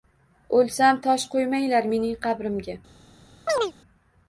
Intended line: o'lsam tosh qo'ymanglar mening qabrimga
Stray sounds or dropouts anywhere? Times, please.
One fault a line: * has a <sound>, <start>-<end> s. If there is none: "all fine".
* has a chirp, 3.5-3.7 s